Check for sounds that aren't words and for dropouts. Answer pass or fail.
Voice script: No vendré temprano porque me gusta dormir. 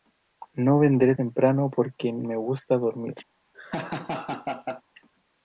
fail